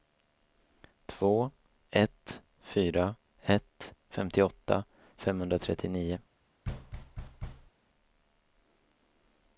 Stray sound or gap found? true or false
true